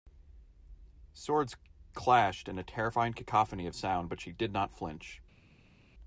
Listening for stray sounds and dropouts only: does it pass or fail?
pass